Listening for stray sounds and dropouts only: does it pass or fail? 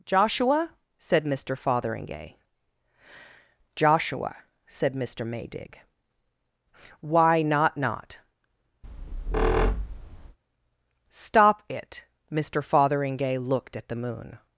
fail